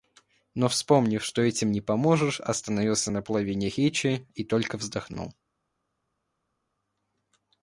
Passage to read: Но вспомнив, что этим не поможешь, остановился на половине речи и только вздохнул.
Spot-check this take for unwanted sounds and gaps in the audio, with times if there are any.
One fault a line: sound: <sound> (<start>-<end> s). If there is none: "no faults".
no faults